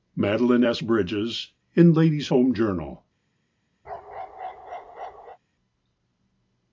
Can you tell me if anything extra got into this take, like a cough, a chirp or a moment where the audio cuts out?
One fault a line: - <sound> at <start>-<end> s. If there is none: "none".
- bark at 3.8-5.4 s